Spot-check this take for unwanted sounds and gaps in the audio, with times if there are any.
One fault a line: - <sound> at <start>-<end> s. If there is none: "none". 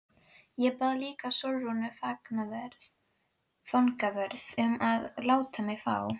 none